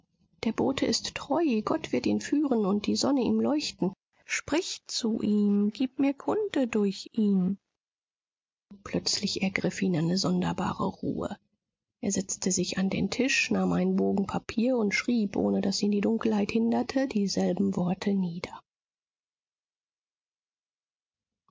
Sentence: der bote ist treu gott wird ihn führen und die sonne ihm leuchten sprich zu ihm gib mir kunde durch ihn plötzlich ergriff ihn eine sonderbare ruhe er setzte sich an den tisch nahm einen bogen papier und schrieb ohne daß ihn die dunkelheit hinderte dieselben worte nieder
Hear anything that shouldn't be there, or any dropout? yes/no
no